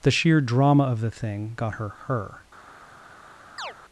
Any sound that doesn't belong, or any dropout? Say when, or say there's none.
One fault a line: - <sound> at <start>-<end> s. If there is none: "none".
- chirp at 3.6-3.7 s